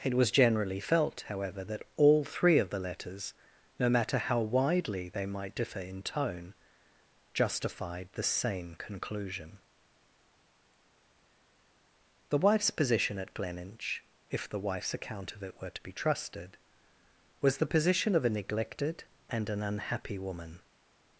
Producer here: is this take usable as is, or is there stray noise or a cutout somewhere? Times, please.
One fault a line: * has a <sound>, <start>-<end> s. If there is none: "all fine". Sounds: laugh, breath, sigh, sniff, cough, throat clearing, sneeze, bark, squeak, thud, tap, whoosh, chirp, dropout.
all fine